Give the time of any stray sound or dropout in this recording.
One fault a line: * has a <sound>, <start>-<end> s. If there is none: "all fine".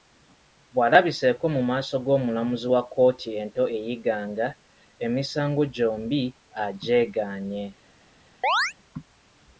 * has a chirp, 8.4-8.7 s